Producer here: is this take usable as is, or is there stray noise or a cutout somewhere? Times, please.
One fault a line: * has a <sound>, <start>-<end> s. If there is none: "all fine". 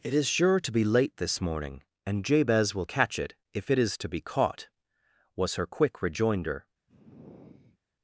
* has a sigh, 6.9-7.8 s